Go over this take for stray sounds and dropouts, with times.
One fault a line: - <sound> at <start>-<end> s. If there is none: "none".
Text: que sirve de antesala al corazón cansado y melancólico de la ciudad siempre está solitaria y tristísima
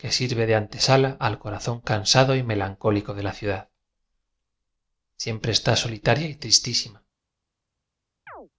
- chirp at 8.3-8.5 s